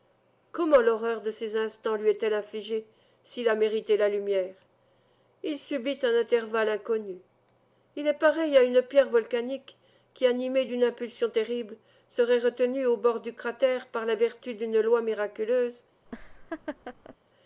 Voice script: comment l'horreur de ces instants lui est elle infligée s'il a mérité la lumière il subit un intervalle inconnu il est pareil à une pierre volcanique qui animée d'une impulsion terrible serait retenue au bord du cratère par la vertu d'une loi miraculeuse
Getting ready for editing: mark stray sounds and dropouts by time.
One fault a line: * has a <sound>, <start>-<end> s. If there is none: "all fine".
* has a laugh, 16.1-17.2 s